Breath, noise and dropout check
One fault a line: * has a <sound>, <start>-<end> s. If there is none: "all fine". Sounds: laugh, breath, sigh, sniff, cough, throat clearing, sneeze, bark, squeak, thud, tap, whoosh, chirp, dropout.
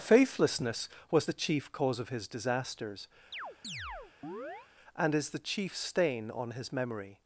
* has a chirp, 3.3-4.7 s